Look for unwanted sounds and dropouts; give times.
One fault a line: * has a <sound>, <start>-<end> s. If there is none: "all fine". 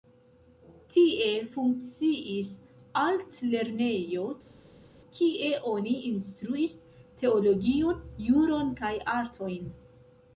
all fine